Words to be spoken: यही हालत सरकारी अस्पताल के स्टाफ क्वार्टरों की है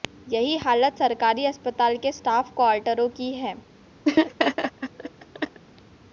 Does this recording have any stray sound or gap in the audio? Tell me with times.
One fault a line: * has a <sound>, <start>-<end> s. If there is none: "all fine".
* has a laugh, 4.0-5.6 s